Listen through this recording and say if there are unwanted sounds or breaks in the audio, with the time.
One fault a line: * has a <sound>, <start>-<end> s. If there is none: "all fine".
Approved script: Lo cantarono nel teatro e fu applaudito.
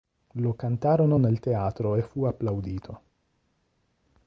all fine